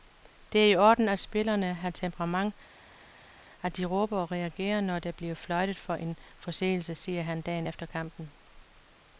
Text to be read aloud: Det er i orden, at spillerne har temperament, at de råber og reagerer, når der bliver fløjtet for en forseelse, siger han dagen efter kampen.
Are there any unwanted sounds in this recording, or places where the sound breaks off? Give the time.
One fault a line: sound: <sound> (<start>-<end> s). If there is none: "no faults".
no faults